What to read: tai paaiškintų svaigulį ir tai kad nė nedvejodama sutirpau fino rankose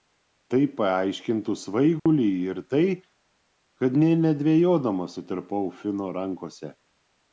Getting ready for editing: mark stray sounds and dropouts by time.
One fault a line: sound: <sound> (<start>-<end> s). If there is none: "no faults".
sound: dropout (2.0-2.1 s)